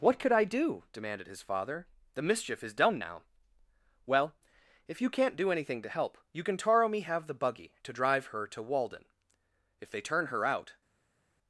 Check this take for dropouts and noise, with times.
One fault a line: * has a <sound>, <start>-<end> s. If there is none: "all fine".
all fine